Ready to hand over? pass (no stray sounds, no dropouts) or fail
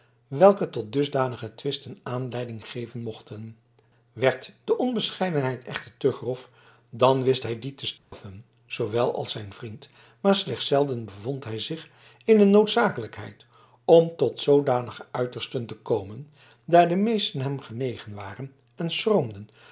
fail